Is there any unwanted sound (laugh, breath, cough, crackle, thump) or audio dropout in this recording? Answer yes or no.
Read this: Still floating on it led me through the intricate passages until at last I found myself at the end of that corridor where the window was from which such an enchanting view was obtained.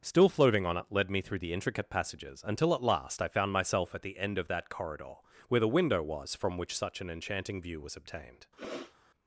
yes